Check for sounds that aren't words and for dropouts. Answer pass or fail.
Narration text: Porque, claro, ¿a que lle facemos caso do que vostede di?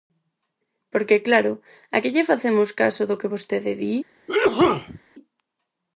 fail